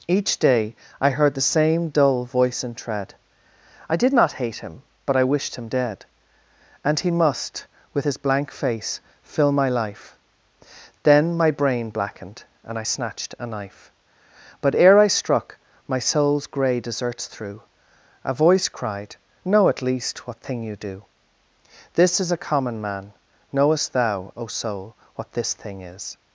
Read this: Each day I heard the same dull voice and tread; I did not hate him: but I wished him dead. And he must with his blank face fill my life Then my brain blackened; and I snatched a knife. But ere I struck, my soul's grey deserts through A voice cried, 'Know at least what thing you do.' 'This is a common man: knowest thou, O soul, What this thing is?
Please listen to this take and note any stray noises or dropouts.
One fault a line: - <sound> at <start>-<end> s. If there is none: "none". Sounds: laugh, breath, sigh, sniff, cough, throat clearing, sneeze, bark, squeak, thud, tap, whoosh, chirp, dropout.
none